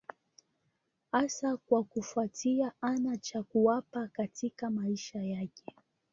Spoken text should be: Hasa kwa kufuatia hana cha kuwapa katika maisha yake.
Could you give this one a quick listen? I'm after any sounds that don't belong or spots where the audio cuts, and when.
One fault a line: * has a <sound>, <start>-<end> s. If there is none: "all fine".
all fine